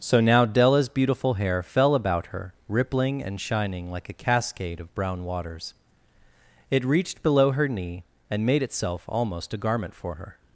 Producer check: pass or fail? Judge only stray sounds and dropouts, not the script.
pass